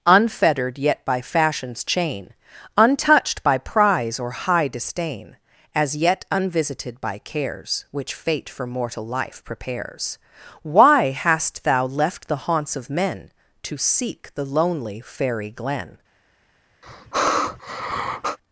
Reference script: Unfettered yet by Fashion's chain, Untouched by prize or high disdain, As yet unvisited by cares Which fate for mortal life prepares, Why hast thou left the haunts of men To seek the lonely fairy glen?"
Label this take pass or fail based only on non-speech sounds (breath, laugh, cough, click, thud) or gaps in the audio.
fail